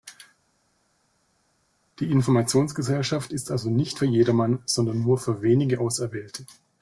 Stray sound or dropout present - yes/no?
no